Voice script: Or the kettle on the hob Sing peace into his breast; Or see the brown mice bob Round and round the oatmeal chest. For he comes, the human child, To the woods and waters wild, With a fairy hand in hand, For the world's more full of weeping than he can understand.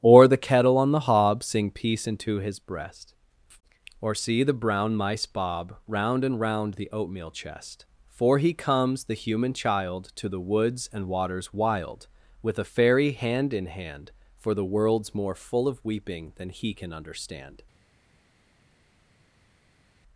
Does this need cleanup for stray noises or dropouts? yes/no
no